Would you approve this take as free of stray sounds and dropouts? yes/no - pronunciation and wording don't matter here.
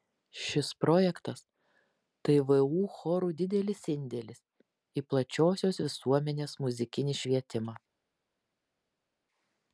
yes